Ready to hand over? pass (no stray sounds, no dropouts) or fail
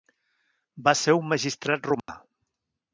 fail